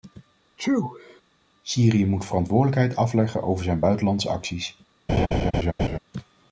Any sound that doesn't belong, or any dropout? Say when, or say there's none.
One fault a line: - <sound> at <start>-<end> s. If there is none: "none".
- sneeze at 0.6-1.2 s
- laugh at 5.1-6.0 s